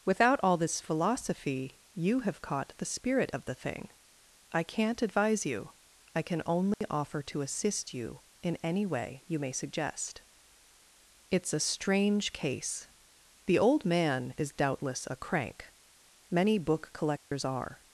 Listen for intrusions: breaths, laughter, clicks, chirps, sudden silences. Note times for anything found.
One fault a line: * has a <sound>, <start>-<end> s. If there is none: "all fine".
* has a dropout, 6.7-6.8 s
* has a dropout, 17.2-17.3 s